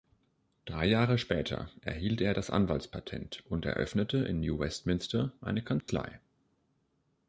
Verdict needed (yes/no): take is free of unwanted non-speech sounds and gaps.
no